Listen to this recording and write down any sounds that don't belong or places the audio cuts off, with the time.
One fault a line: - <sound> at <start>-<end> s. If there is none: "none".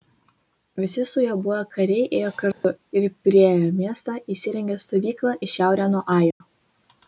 - dropout at 2.5-2.6 s
- dropout at 6.3-6.4 s